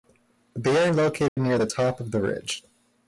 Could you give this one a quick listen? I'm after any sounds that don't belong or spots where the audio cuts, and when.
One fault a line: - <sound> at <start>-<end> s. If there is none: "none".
- dropout at 1.3-1.4 s